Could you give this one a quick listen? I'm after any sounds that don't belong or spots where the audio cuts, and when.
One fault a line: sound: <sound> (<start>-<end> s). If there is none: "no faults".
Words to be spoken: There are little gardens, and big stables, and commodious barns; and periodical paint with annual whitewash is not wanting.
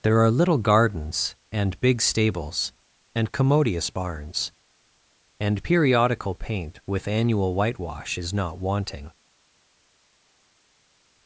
no faults